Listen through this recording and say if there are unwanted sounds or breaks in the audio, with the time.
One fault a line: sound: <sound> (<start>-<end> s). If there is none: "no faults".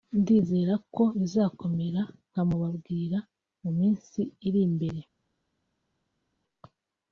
no faults